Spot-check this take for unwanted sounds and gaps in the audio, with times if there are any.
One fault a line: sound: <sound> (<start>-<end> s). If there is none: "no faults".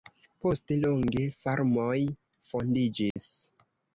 sound: dropout (3.1-3.2 s)